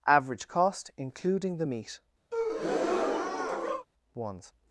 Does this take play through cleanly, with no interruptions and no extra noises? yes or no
no